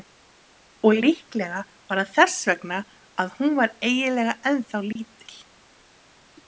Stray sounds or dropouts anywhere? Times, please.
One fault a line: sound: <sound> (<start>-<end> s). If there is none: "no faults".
sound: dropout (4.9-5.0 s)